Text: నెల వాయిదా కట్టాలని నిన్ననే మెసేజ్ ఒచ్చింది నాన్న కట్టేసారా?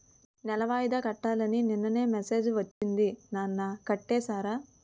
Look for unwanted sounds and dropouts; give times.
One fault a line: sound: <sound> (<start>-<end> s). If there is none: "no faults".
sound: dropout (2.7-2.8 s)